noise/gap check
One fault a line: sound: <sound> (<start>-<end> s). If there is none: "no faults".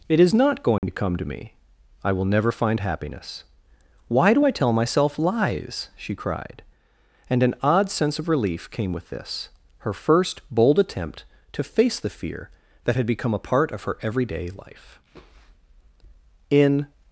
sound: dropout (0.8-0.8 s)